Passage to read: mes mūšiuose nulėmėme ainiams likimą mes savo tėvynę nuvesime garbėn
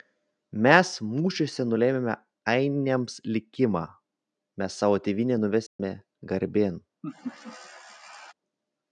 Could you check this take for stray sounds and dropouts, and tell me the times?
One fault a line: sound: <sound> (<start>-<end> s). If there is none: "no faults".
sound: dropout (5.7-5.8 s)
sound: laugh (7.0-8.3 s)